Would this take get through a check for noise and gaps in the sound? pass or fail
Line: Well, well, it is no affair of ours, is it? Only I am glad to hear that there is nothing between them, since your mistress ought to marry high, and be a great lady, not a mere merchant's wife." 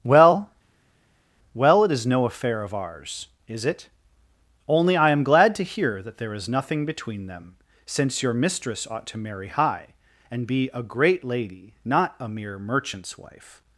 pass